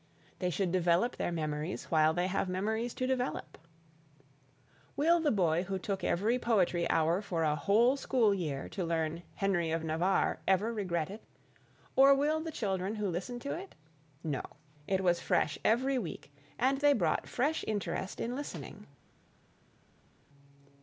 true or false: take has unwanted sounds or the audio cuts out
false